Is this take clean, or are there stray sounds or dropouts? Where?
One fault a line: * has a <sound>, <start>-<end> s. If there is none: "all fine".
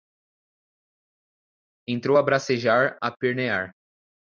all fine